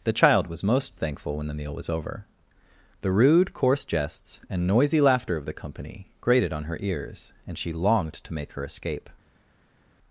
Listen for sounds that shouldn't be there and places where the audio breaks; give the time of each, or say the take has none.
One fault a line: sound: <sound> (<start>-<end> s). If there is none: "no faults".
no faults